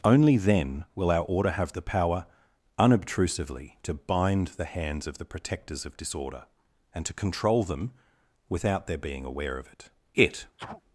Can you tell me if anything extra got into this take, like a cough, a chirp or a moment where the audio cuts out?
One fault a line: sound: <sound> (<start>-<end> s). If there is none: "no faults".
sound: sneeze (10.6-10.8 s)